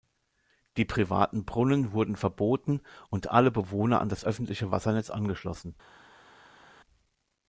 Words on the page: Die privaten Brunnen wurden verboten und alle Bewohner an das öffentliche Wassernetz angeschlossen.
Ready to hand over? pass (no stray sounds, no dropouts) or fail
pass